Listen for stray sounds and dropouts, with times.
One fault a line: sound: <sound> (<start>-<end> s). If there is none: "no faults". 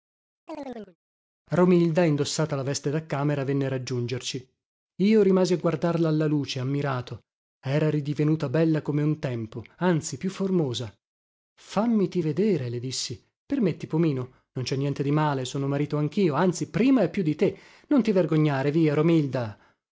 sound: chirp (0.5-1.0 s)